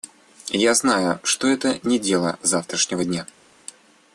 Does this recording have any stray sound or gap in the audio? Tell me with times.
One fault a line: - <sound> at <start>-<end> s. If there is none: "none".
none